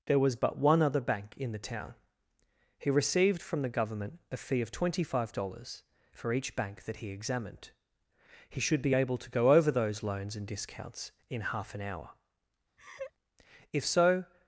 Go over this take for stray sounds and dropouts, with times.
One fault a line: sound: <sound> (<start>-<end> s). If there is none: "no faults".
sound: laugh (12.8-13.1 s)